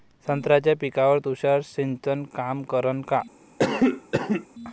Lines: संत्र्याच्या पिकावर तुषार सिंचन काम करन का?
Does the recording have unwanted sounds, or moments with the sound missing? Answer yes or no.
yes